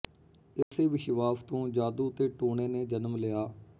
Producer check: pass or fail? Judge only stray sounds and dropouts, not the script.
fail